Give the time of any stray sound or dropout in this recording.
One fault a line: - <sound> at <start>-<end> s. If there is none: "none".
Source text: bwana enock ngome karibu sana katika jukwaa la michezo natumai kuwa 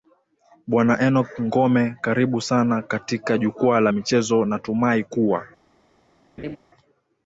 - laugh at 6.4-6.6 s